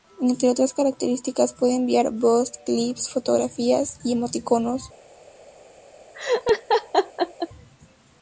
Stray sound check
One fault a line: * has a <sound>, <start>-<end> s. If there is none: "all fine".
* has a laugh, 6.1-7.5 s